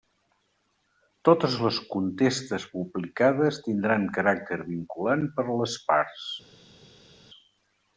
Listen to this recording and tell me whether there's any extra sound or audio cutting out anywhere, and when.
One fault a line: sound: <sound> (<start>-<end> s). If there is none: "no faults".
no faults